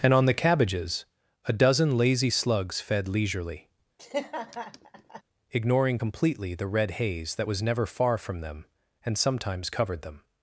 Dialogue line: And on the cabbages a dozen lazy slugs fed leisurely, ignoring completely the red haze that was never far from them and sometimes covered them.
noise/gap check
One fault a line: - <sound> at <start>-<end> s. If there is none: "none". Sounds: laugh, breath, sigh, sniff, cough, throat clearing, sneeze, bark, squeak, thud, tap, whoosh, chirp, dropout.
- laugh at 4.0-5.2 s